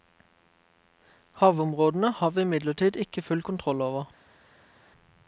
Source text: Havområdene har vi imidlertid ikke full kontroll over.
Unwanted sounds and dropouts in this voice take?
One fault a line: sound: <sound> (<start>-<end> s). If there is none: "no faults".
no faults